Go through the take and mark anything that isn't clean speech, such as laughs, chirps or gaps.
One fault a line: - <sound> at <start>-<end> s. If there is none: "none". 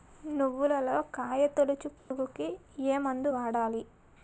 - dropout at 2.0-2.1 s